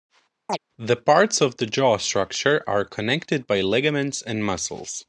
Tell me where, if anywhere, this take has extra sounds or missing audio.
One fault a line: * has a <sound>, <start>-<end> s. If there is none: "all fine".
* has a chirp, 0.5-0.6 s